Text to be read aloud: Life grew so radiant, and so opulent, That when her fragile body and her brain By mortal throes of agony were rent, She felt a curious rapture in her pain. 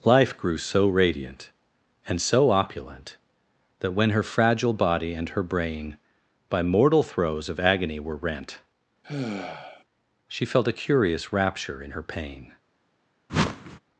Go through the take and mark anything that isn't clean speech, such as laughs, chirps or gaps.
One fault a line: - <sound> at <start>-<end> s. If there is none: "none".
- sigh at 9.0-9.8 s
- whoosh at 13.3-13.8 s